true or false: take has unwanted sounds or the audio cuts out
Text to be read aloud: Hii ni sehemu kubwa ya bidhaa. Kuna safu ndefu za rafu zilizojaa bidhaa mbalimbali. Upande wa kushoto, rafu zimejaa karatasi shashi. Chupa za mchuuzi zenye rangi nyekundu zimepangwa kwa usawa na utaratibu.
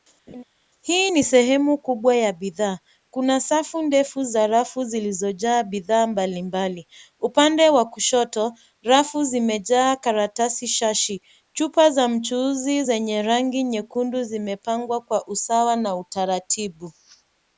true